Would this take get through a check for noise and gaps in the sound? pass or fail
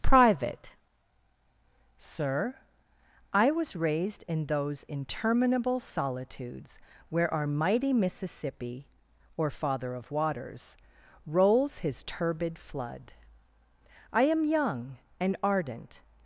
pass